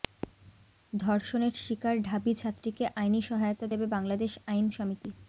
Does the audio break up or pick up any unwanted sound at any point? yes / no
no